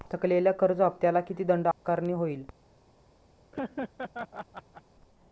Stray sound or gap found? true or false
true